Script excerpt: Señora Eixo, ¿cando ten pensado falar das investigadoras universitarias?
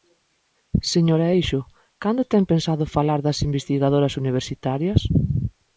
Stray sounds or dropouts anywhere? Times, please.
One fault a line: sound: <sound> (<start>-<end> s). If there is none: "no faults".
no faults